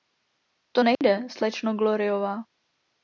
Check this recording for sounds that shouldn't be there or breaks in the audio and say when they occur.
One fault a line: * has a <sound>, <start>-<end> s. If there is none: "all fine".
* has a dropout, 0.9-1.0 s